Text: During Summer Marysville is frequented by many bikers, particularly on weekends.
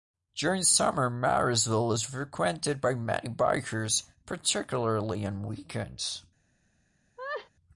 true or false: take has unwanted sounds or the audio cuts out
true